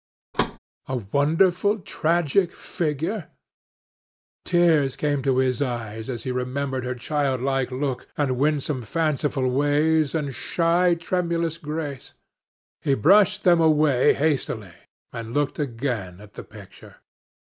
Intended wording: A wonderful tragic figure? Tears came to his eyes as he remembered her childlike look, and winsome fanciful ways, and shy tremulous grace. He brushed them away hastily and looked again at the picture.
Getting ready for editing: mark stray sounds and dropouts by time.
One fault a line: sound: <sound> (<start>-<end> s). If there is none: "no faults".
sound: thud (0.3-0.6 s)